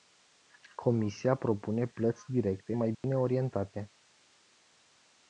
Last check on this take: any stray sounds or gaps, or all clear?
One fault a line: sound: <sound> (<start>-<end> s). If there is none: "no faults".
sound: dropout (2.9-3.0 s)